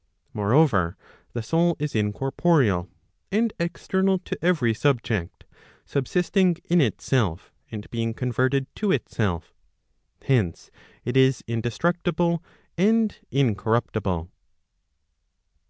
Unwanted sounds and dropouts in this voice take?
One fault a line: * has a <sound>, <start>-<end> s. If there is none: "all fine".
all fine